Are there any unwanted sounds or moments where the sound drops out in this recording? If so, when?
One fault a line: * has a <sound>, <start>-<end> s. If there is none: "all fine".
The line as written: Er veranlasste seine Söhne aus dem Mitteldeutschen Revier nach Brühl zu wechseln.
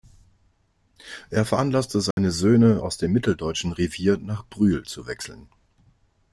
* has a dropout, 2.1-2.2 s